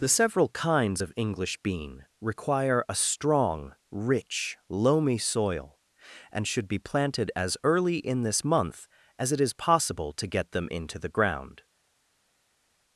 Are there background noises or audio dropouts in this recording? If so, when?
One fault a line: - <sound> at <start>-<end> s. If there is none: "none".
none